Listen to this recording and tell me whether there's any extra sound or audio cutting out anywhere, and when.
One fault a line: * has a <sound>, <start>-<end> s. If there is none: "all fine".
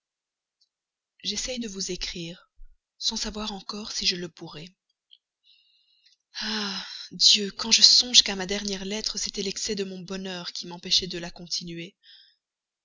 all fine